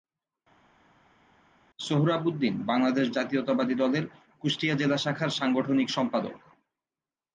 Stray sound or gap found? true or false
false